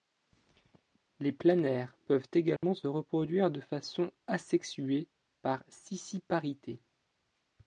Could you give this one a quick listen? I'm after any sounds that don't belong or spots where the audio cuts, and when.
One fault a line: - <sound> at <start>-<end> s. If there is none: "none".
- dropout at 2.6-2.6 s